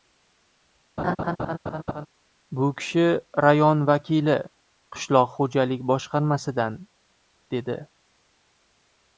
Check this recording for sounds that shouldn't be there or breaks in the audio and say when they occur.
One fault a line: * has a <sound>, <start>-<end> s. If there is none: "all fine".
* has a laugh, 1.0-2.1 s